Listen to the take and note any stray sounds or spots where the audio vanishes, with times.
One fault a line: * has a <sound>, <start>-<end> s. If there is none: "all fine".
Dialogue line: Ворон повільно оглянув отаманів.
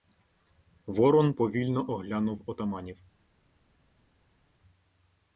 all fine